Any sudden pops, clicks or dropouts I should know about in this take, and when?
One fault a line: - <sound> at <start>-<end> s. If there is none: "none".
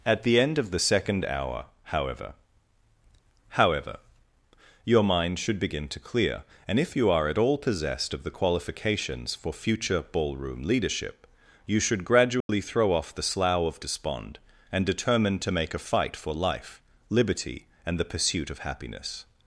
- dropout at 12.4-12.5 s